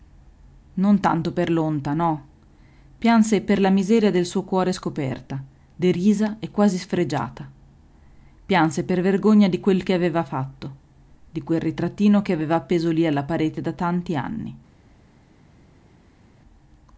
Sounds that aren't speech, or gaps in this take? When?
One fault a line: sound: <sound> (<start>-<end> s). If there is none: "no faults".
no faults